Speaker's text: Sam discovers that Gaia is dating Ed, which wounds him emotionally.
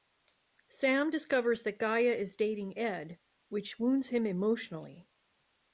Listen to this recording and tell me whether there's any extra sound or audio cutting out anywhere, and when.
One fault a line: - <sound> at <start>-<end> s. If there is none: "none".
none